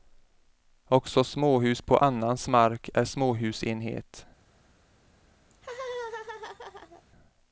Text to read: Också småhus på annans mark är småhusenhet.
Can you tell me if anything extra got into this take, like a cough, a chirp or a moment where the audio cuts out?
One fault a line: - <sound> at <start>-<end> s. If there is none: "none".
- laugh at 5.5-7.0 s